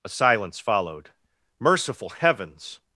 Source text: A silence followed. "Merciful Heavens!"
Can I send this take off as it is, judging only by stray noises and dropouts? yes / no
yes